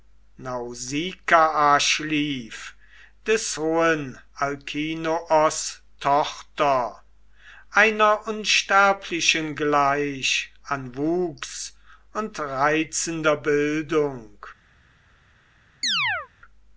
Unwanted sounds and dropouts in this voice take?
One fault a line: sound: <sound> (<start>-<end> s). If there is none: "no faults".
sound: chirp (15.8-16.3 s)